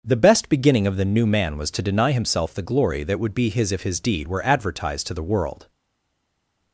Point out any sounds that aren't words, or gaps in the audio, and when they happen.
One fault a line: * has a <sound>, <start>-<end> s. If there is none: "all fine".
all fine